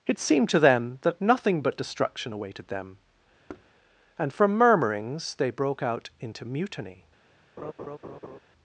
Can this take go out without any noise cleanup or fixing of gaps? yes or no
no